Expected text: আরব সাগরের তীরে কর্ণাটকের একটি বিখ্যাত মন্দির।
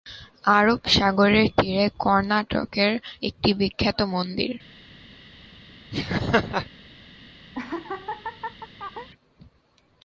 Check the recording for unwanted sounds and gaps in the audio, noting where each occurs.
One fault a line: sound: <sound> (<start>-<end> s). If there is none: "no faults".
sound: laugh (5.9-6.7 s)
sound: laugh (7.5-9.1 s)